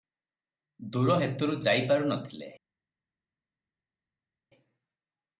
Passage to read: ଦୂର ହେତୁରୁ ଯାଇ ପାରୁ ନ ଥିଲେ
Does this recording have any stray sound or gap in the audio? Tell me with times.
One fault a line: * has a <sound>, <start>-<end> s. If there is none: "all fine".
all fine